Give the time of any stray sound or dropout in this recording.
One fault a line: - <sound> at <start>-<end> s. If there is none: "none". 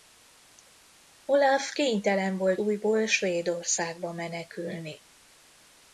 none